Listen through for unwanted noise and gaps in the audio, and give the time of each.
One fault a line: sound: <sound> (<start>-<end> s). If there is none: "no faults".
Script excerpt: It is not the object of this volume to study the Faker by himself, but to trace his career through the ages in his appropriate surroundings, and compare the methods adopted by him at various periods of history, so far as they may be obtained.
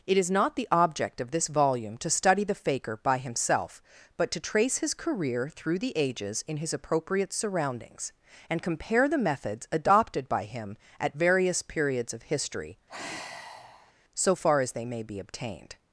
sound: sigh (12.9-13.9 s)